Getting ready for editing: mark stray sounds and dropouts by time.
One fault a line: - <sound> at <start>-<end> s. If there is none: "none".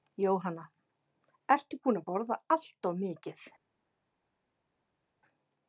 none